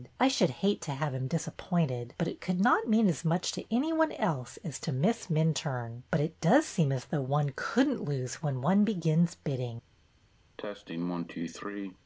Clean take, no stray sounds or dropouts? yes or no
no